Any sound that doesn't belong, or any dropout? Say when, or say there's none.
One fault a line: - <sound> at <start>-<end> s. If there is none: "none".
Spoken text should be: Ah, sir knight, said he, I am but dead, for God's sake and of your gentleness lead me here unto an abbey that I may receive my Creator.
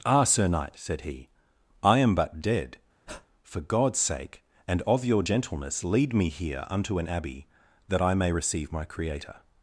- breath at 3.1-3.3 s